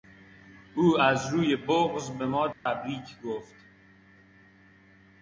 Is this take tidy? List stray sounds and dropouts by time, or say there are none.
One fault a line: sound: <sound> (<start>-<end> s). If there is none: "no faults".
sound: dropout (2.5-2.7 s)